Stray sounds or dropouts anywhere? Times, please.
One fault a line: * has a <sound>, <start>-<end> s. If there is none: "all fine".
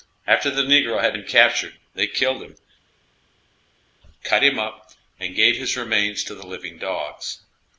all fine